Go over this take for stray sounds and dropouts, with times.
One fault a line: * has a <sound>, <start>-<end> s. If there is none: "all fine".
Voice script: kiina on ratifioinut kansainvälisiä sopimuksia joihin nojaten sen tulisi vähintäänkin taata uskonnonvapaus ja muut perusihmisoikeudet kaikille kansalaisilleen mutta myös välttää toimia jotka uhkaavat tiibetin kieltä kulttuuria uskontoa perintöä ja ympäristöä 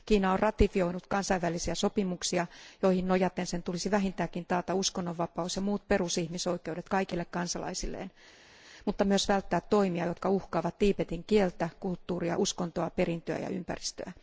all fine